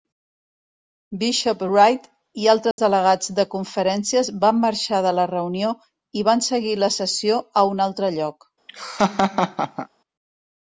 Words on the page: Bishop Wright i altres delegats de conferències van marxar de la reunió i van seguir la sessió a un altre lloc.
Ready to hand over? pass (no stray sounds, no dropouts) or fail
fail